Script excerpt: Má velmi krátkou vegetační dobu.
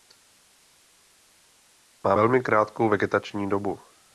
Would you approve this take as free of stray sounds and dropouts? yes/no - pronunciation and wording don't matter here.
yes